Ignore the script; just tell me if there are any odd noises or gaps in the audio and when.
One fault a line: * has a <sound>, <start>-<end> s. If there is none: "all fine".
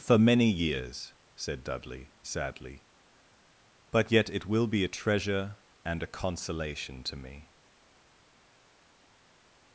all fine